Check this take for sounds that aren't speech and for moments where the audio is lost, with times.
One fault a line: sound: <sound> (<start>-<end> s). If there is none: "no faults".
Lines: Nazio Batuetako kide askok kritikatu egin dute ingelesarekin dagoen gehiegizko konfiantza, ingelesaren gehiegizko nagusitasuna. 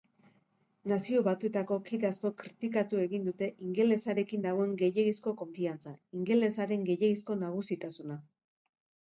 no faults